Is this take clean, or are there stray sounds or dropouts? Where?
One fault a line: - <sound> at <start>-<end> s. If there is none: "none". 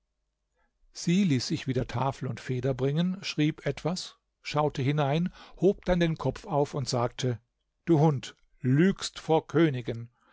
none